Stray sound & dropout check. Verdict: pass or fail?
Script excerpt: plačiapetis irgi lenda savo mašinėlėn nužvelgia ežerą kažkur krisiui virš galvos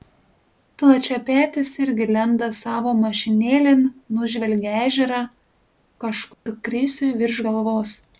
fail